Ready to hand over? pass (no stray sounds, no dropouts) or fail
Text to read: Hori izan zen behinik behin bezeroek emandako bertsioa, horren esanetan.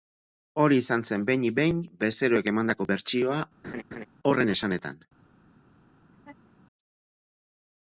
fail